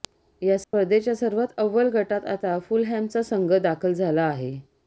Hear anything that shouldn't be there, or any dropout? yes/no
yes